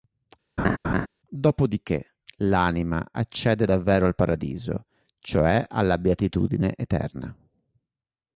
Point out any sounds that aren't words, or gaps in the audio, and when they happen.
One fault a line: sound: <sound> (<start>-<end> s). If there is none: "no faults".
sound: laugh (0.6-1.1 s)